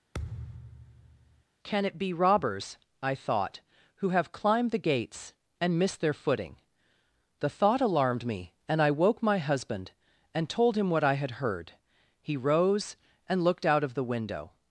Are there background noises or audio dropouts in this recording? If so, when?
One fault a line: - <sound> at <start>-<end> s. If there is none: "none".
- thud at 0.1-1.4 s